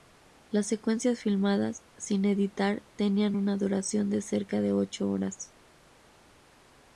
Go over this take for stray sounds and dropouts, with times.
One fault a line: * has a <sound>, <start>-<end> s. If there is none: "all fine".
all fine